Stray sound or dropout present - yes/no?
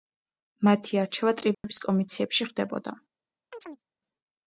yes